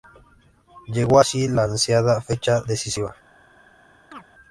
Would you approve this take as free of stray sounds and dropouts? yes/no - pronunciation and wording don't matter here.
no